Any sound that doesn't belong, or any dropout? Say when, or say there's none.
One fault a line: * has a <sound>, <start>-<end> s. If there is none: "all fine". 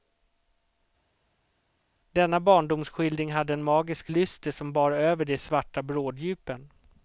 all fine